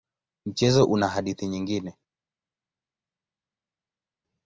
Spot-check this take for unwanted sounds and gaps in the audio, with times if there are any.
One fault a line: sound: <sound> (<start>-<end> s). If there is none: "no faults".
no faults